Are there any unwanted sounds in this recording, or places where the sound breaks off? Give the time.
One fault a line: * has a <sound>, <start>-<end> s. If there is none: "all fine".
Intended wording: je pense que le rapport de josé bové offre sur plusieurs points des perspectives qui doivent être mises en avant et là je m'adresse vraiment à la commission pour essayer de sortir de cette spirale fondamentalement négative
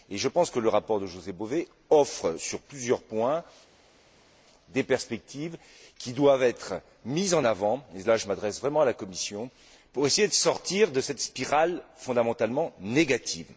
all fine